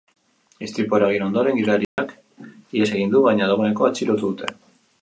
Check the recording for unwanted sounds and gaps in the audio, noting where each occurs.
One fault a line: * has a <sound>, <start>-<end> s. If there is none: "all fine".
* has a dropout, 1.8-2.0 s